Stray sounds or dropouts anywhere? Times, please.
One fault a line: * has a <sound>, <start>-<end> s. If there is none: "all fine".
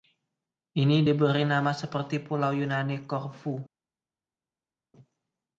all fine